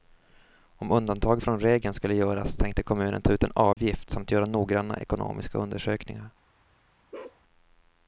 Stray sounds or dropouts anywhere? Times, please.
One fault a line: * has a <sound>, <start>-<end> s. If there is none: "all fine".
* has a dropout, 3.7-3.8 s
* has a bark, 7.1-7.4 s